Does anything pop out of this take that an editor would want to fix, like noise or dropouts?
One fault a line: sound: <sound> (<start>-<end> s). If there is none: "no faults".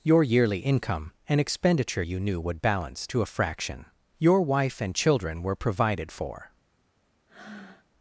sound: breath (7.3-7.9 s)